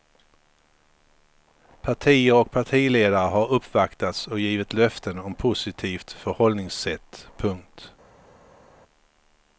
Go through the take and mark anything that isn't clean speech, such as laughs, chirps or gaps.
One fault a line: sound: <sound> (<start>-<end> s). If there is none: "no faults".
no faults